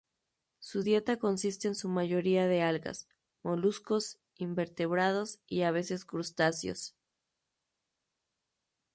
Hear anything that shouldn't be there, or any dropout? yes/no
no